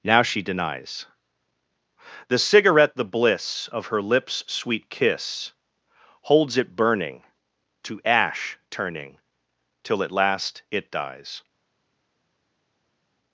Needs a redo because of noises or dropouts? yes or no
no